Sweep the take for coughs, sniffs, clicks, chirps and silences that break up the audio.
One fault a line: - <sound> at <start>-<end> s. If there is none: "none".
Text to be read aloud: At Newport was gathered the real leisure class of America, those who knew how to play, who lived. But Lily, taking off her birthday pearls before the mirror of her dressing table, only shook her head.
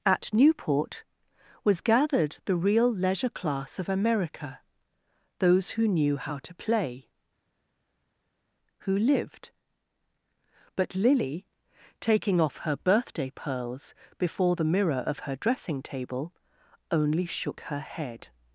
none